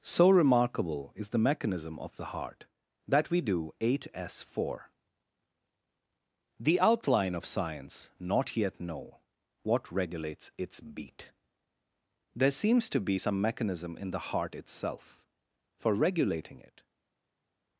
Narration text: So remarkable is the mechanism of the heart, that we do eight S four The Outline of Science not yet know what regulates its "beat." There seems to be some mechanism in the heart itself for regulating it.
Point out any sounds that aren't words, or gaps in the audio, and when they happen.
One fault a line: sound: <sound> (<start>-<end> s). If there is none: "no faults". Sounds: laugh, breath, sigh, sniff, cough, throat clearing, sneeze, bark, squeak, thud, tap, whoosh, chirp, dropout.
no faults